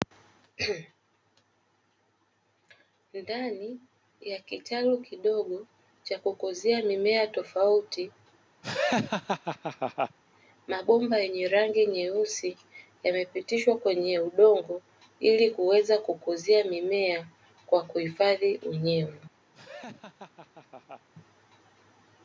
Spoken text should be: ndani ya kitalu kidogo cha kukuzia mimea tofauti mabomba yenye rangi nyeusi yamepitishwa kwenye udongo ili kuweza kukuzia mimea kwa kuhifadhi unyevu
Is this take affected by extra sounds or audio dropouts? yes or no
yes